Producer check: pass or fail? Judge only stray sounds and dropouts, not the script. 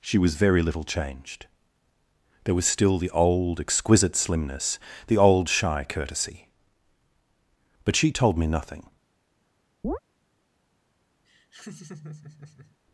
fail